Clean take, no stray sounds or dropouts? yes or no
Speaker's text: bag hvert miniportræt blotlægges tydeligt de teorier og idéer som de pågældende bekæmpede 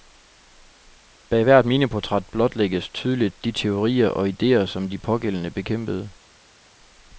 yes